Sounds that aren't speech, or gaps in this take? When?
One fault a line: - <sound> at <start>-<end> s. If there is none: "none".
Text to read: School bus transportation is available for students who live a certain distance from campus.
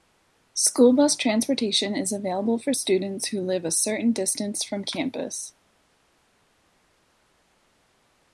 none